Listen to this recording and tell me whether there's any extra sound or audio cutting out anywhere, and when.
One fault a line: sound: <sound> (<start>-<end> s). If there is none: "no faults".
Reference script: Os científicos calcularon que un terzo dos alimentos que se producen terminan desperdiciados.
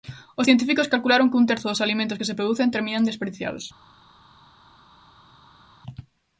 no faults